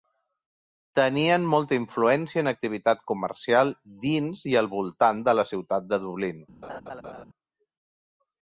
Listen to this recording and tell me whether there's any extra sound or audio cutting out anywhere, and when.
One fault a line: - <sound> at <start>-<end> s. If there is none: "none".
- laugh at 6.6-7.2 s